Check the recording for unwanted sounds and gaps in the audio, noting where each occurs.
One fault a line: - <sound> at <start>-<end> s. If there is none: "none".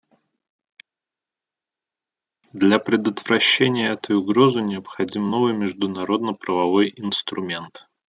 none